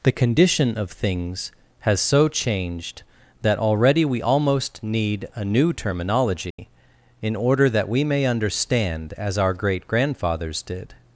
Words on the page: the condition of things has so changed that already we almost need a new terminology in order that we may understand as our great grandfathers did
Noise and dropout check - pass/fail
fail